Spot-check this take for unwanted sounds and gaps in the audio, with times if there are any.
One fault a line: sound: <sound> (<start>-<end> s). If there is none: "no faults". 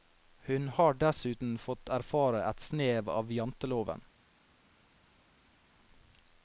no faults